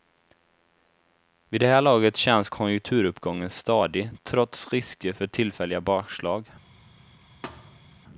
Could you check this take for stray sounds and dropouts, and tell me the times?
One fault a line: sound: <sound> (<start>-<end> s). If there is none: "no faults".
sound: thud (7.4-8.0 s)